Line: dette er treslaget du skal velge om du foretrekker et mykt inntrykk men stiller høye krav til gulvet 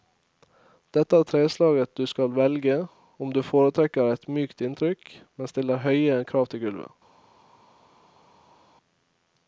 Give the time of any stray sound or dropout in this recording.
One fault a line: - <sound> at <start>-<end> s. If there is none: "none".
none